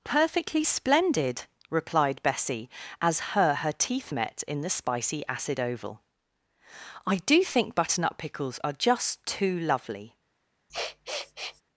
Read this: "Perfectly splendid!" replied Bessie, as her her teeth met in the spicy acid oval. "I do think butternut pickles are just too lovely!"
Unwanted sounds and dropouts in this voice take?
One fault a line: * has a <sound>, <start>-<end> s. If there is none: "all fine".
* has a sniff, 10.7-11.6 s